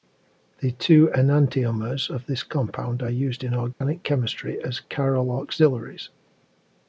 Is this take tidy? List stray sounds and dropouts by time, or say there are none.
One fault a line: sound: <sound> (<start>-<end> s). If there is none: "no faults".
sound: dropout (3.7-3.8 s)